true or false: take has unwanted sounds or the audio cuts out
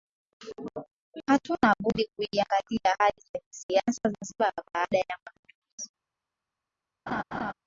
true